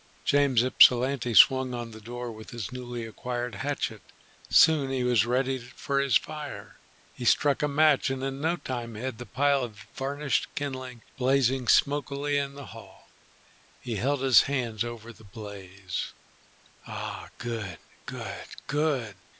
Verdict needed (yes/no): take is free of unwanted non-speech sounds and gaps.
yes